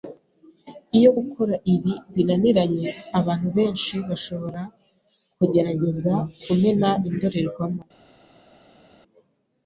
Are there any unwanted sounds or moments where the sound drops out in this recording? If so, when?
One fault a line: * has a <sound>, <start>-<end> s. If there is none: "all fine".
all fine